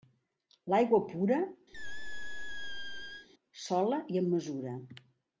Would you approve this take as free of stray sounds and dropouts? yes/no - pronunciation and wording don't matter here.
no